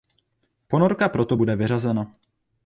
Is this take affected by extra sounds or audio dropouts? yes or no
no